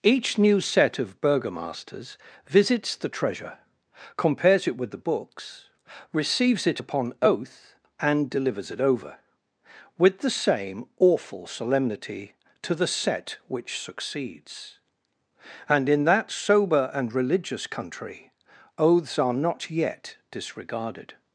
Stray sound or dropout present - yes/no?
no